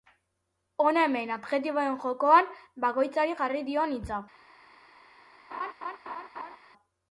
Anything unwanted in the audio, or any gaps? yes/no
yes